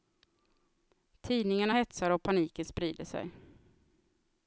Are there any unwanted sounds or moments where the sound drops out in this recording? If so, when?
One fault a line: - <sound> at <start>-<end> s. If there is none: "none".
none